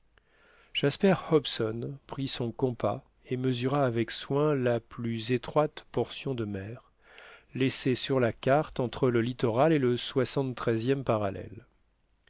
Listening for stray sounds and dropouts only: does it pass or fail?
pass